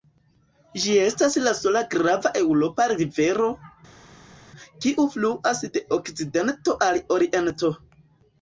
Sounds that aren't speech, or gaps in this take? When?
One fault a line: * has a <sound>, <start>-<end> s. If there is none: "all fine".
all fine